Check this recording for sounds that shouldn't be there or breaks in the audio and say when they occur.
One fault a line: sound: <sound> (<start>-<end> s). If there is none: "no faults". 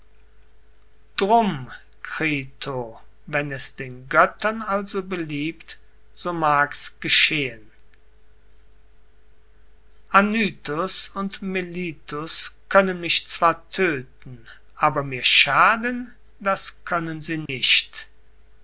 sound: dropout (17.5-17.5 s)